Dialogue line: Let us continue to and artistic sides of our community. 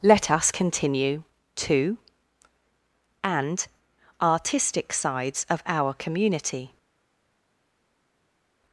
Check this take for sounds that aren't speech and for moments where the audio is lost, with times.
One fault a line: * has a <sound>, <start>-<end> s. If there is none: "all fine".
all fine